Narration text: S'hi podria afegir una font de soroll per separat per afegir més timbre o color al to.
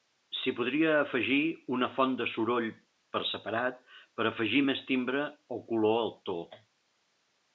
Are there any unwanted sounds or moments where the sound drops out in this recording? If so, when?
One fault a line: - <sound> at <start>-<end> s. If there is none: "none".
none